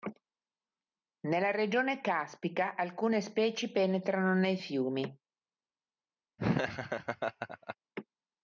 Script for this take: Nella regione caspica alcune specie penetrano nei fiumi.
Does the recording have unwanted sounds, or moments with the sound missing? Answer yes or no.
yes